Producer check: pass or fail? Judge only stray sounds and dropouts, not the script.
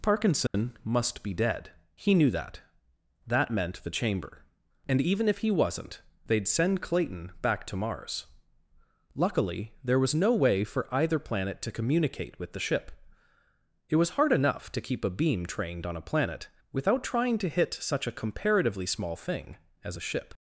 fail